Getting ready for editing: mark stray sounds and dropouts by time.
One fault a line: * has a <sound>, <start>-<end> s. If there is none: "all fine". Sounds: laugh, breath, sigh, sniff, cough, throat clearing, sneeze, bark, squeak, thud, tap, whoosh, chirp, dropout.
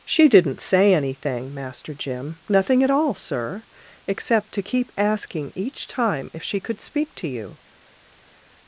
all fine